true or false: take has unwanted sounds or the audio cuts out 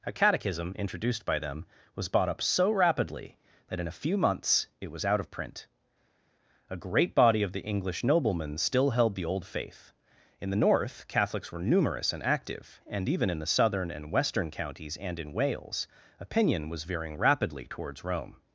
false